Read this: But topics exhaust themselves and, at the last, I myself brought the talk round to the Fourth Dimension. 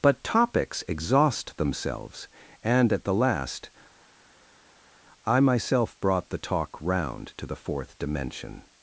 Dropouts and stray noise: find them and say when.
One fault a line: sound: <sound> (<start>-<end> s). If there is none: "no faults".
no faults